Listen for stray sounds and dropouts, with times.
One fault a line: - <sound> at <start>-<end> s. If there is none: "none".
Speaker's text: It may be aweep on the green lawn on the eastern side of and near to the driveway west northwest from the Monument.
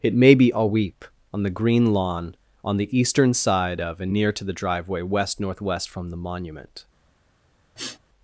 - sniff at 7.8-8.0 s